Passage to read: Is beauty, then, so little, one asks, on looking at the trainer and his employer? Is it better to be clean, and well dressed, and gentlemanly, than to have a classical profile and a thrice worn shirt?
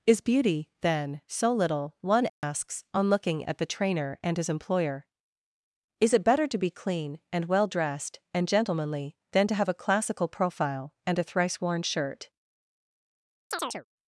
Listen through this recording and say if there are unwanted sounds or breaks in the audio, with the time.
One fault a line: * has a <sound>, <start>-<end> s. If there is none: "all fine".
* has a dropout, 2.3-2.4 s
* has a chirp, 13.5-13.9 s